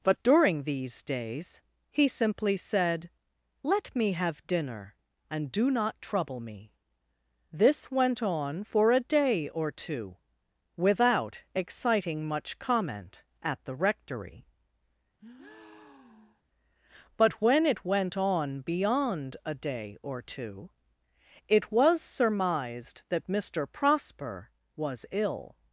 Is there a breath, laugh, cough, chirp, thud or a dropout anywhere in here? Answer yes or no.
yes